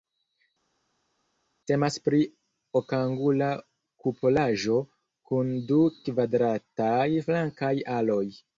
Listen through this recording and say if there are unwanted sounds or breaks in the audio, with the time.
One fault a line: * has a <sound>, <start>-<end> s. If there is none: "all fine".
all fine